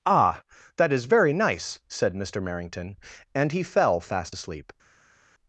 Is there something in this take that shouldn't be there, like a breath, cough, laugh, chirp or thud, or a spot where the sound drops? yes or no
no